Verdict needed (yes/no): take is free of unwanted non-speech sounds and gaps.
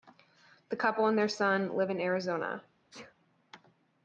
no